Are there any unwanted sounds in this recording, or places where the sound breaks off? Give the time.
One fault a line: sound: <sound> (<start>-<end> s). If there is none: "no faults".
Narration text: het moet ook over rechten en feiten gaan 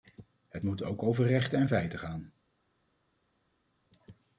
no faults